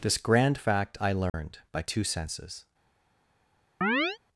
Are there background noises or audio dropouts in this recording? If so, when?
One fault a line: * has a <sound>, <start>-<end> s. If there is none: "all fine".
* has a dropout, 1.3-1.3 s
* has a chirp, 3.8-4.2 s